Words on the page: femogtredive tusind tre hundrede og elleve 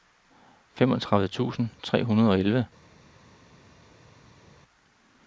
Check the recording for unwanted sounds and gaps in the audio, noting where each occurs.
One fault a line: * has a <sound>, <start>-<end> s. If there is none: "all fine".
all fine